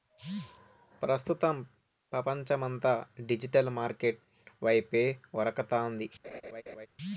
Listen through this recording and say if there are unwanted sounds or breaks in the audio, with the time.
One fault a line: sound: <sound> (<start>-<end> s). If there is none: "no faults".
sound: laugh (6.2-6.9 s)